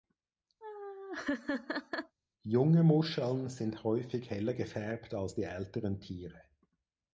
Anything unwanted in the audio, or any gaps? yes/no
yes